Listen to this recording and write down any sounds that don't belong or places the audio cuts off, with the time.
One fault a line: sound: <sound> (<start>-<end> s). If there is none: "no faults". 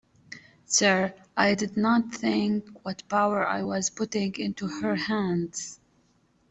no faults